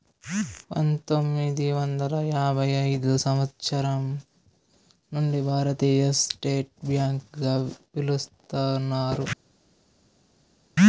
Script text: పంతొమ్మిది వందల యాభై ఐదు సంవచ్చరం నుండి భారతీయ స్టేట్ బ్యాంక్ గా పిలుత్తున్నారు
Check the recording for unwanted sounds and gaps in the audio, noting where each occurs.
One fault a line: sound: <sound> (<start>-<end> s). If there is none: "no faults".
no faults